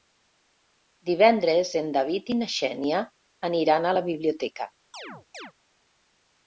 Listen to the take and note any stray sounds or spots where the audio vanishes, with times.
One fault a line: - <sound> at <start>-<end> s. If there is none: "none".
- chirp at 4.9-5.5 s